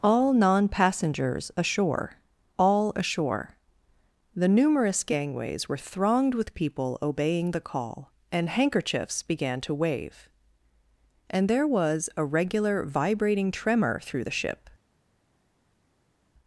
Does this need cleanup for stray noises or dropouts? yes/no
no